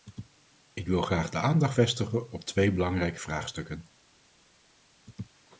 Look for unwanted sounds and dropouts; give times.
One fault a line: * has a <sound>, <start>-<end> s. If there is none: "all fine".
all fine